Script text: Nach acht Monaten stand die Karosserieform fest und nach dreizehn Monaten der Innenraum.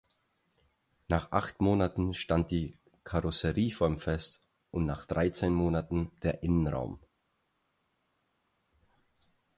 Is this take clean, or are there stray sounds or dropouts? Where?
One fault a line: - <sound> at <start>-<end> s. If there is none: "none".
none